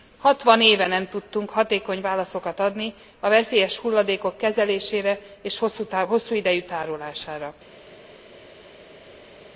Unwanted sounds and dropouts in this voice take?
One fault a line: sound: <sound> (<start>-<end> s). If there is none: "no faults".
no faults